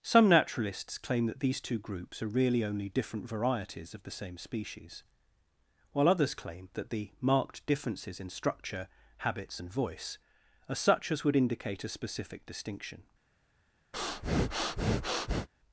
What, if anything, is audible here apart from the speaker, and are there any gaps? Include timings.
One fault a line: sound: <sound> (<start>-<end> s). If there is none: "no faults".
sound: breath (13.9-15.5 s)